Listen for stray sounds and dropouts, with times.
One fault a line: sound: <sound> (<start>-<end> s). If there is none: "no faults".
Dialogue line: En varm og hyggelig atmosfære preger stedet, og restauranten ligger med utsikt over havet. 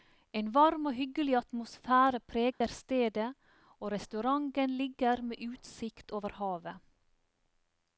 sound: dropout (2.5-2.6 s)